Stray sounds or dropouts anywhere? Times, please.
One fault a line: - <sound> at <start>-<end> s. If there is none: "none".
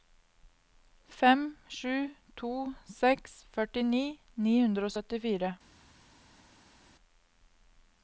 none